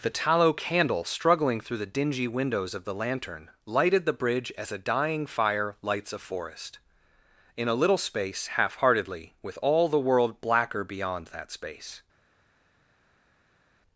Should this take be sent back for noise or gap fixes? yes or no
no